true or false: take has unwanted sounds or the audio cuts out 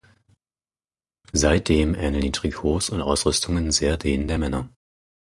false